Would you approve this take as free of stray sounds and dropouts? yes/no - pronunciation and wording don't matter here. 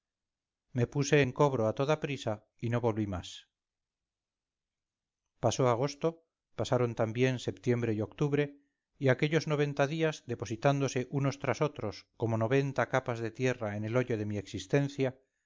yes